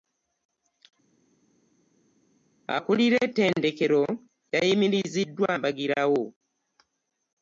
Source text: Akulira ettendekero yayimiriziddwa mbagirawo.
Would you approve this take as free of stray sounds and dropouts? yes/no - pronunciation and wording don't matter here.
yes